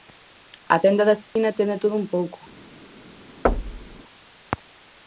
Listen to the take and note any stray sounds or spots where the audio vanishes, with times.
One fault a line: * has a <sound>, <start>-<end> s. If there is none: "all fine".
* has a dropout, 1.2-1.4 s
* has a thud, 3.4-4.0 s